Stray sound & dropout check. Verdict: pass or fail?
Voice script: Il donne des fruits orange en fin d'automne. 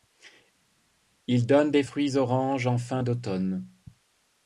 pass